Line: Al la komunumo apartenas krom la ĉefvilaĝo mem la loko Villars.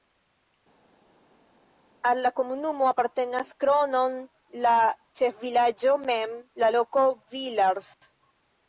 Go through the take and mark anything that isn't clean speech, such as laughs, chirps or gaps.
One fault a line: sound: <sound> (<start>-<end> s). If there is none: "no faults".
no faults